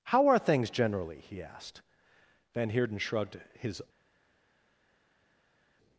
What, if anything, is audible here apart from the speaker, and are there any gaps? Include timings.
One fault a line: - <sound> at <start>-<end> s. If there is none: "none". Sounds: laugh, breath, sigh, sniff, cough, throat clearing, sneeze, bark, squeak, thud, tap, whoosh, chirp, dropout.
none